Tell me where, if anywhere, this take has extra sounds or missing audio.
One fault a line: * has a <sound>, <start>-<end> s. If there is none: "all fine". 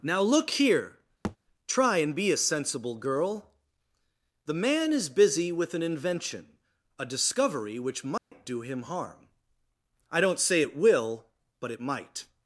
* has a thud, 1.2-1.4 s
* has a dropout, 8.2-8.3 s